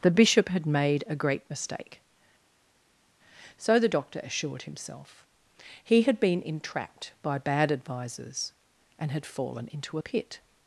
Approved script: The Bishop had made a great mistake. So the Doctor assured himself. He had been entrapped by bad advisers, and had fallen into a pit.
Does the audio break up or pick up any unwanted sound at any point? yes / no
no